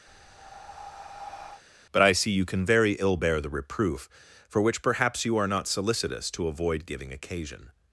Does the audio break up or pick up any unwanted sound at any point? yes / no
yes